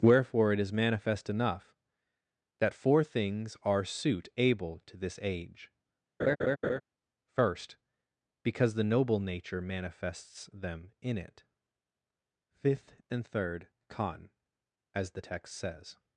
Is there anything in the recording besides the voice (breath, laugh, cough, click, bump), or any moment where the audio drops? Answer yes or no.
yes